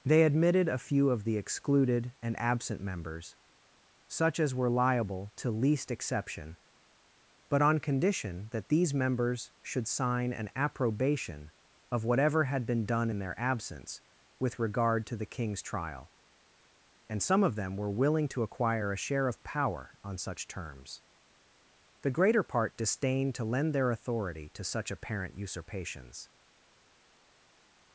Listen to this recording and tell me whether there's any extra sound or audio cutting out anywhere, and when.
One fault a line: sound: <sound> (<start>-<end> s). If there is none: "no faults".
no faults